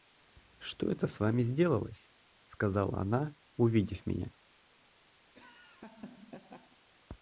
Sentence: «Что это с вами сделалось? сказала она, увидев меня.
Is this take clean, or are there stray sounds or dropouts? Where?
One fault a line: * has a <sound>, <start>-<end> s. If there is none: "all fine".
* has a laugh, 5.2-6.8 s